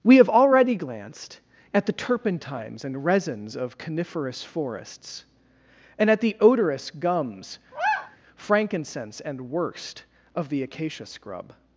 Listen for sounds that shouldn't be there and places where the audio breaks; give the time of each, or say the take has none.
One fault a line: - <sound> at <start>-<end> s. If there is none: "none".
- sigh at 7.7-8.2 s